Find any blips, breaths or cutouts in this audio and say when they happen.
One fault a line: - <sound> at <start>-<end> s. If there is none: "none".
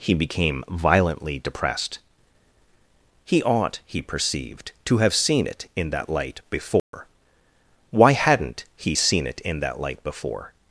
- dropout at 6.8-6.9 s